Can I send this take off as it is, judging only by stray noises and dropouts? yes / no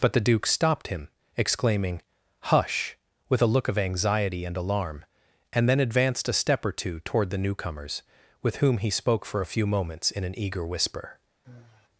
no